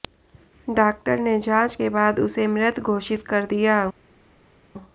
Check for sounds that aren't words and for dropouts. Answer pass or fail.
pass